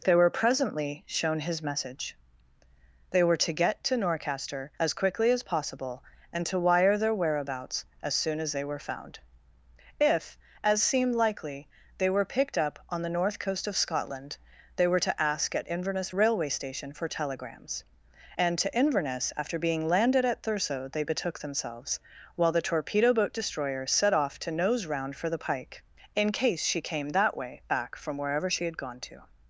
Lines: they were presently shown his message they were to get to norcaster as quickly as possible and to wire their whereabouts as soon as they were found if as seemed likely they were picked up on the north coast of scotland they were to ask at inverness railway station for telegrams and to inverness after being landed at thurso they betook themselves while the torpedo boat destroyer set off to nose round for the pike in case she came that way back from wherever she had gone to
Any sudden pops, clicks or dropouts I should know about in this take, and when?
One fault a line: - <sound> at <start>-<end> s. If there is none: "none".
none